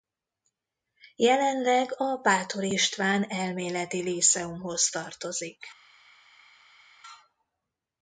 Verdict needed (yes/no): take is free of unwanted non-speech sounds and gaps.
yes